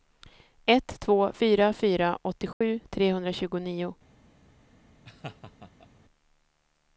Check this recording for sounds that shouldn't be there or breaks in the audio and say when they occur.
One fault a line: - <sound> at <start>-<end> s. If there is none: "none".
- dropout at 2.5-2.6 s
- laugh at 5.0-5.9 s